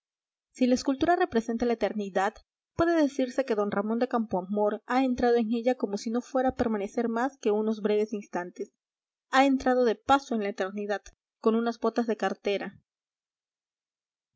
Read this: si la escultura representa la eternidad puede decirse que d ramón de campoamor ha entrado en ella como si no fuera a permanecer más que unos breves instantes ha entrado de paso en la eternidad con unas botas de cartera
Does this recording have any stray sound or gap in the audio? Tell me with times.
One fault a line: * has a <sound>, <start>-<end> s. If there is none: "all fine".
all fine